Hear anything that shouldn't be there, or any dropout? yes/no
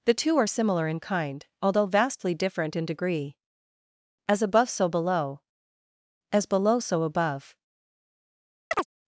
yes